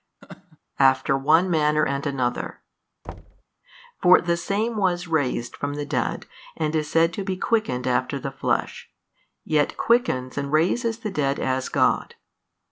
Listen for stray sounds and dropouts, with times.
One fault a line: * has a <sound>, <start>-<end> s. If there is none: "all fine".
* has a laugh, 0.2-0.6 s
* has a thud, 3.0-3.4 s